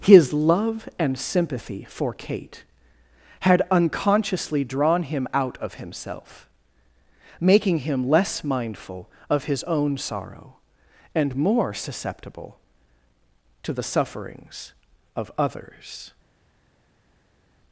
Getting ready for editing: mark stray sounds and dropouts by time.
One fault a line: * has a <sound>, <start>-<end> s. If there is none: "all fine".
all fine